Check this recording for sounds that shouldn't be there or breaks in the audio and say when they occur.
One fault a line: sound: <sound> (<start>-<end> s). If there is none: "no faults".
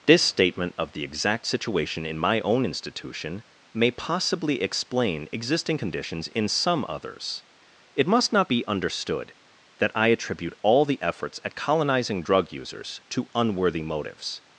no faults